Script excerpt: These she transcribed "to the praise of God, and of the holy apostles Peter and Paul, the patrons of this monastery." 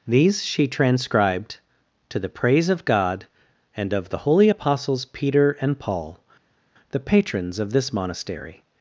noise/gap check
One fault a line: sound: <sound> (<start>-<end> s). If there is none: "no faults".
no faults